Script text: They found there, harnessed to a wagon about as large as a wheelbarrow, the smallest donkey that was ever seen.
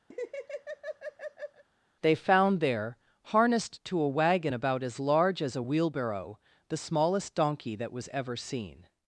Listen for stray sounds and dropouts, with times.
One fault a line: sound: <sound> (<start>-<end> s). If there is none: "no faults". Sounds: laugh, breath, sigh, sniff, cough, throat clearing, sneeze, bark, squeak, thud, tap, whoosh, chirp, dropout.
sound: laugh (0.1-1.6 s)